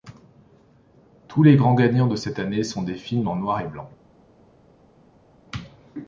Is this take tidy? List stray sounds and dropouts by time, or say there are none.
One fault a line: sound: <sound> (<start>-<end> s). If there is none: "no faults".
no faults